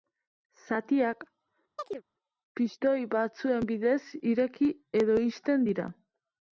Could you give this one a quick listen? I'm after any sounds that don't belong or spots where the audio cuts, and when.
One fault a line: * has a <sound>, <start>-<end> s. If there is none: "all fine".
* has a chirp, 1.8-2.0 s